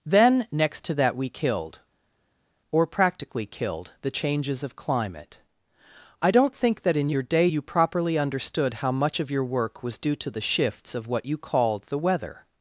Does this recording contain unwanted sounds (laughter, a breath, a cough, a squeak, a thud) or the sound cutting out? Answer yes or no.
no